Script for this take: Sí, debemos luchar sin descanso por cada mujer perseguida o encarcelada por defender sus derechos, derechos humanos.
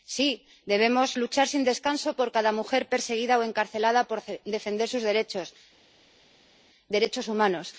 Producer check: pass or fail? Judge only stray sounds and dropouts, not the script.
pass